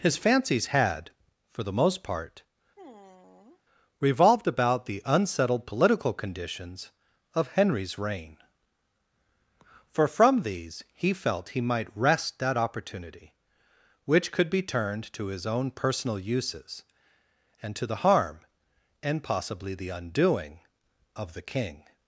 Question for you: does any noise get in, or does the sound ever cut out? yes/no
yes